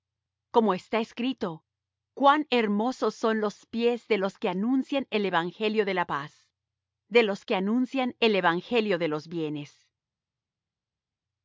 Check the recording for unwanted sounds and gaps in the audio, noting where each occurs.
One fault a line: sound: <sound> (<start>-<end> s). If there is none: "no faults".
no faults